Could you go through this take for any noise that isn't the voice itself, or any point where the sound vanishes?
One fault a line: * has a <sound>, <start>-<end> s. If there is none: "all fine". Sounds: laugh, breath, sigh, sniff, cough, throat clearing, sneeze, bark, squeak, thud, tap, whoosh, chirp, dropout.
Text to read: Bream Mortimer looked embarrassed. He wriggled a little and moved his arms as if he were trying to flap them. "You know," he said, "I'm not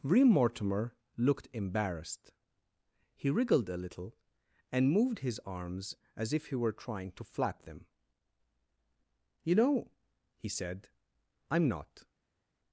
all fine